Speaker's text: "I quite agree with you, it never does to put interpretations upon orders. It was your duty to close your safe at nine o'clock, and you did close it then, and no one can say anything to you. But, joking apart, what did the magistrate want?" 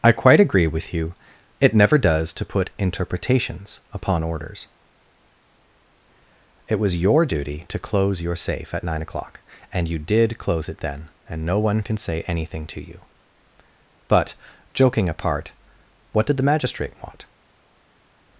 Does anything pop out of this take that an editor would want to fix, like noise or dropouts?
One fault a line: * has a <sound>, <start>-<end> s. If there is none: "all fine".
all fine